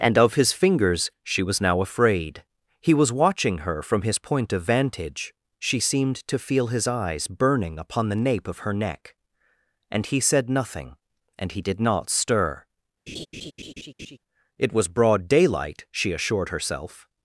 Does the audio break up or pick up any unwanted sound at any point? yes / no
yes